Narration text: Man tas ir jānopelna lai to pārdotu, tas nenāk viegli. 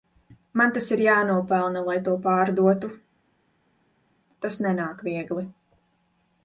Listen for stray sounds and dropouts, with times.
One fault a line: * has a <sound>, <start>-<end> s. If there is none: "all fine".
all fine